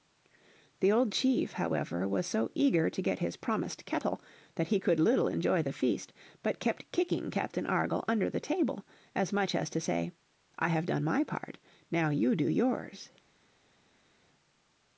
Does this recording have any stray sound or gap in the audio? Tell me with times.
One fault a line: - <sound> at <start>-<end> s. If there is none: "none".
none